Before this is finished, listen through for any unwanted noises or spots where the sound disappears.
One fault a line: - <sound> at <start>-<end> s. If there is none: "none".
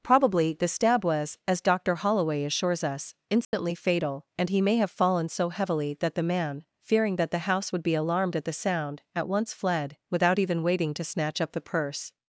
- dropout at 3.4-3.5 s